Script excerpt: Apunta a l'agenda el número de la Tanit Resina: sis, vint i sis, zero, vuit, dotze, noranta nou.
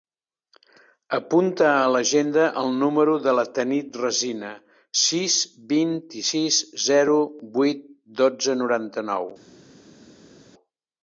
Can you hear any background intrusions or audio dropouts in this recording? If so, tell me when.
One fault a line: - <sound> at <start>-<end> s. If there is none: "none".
none